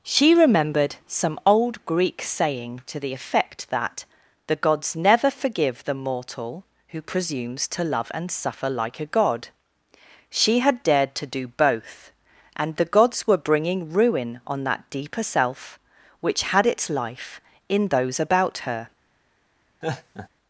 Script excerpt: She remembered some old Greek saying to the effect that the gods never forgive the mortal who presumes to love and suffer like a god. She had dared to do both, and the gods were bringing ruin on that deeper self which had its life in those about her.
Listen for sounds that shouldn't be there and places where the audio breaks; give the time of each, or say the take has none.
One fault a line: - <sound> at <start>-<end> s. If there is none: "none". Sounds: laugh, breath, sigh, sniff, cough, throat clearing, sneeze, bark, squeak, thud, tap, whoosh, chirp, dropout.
- laugh at 19.8-20.3 s